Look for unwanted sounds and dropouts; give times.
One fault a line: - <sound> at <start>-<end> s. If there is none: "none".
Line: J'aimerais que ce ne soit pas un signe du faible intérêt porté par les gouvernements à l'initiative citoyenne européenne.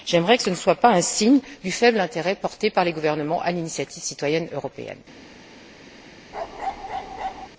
- bark at 6.3-7.5 s